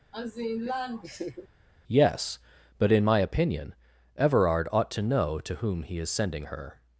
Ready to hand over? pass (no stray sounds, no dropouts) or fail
fail